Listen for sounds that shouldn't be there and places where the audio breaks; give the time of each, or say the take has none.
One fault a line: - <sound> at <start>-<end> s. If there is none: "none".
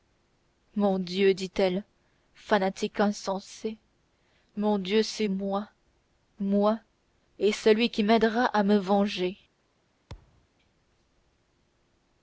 - thud at 10.1-10.5 s